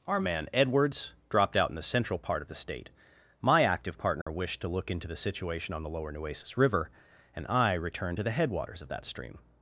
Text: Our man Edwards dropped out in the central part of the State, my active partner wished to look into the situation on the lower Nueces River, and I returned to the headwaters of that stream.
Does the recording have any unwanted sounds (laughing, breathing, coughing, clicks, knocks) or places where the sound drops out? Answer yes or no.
yes